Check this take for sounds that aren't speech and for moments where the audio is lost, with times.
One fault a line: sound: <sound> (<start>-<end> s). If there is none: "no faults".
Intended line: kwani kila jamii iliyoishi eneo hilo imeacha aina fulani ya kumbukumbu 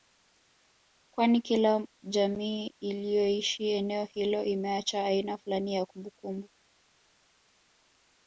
no faults